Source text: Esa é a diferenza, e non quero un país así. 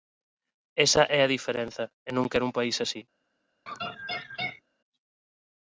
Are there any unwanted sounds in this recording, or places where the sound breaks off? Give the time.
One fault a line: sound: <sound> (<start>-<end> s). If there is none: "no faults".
sound: laugh (3.7-4.6 s)